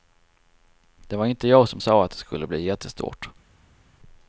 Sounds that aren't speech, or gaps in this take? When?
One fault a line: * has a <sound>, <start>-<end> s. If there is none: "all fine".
all fine